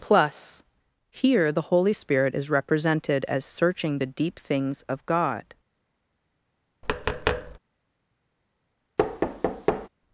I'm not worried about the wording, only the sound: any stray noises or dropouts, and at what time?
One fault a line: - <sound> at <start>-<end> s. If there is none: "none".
- tap at 6.8-7.6 s
- thud at 9.0-9.9 s